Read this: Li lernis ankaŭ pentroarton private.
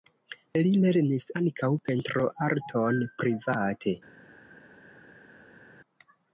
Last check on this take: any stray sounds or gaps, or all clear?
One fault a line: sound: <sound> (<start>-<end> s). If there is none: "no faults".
no faults